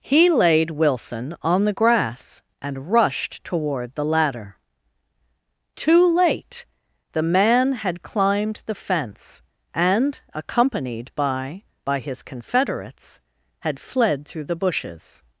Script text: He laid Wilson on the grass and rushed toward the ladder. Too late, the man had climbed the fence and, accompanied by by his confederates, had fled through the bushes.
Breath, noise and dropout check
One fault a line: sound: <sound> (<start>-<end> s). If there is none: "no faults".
no faults